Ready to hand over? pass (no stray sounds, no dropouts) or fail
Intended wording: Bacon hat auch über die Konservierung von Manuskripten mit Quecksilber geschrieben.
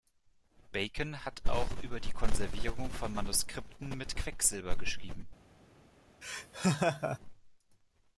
fail